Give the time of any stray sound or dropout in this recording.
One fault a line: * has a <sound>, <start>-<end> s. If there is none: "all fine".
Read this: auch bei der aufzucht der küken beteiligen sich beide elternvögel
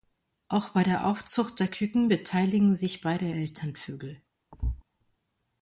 * has a thud, 4.5-4.8 s